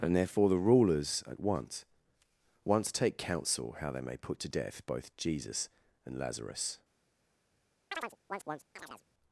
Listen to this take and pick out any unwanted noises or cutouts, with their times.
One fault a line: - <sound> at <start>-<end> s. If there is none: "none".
- chirp at 7.9-9.0 s